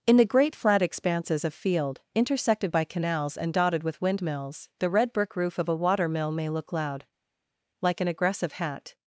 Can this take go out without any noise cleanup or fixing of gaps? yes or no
yes